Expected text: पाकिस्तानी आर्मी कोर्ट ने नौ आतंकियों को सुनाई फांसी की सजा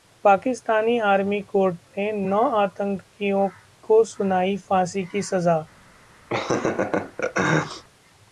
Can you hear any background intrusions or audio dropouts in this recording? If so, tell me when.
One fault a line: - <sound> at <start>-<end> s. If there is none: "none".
- laugh at 6.3-7.8 s